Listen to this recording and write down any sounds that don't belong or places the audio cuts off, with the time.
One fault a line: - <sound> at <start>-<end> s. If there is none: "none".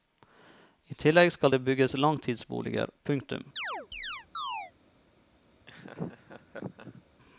- chirp at 3.6-4.7 s
- laugh at 5.7-7.0 s